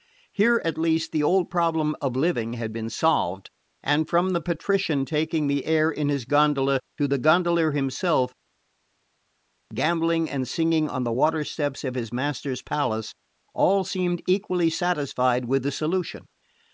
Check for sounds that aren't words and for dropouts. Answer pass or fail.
pass